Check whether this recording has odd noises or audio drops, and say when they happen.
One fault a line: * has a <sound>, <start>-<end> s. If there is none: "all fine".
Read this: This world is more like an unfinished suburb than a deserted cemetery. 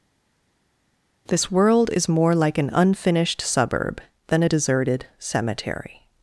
all fine